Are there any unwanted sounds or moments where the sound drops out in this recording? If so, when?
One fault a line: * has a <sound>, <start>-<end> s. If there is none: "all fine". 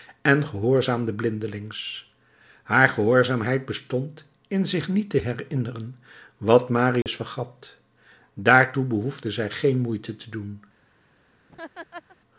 * has a dropout, 7.0-7.1 s
* has a laugh, 11.5-12.2 s